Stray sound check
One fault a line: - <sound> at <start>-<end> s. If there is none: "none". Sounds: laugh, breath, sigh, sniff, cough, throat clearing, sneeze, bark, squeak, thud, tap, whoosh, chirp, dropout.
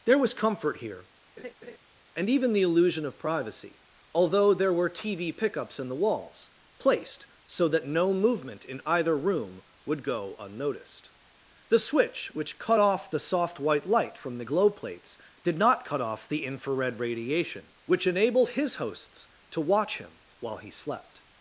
- laugh at 1.4-1.8 s